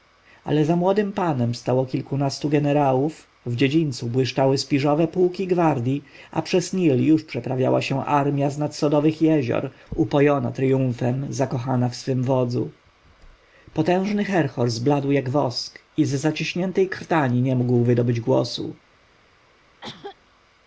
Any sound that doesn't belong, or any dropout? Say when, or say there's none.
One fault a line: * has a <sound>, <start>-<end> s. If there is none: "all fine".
* has a cough, 19.8-20.2 s